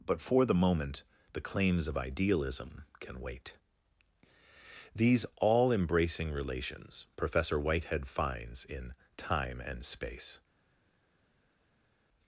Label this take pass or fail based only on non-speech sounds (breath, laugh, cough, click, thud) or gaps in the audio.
pass